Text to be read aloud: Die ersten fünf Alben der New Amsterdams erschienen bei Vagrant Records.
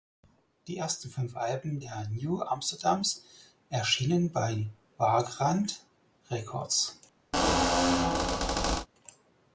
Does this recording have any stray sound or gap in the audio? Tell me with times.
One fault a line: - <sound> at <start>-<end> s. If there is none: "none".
- squeak at 7.3-8.9 s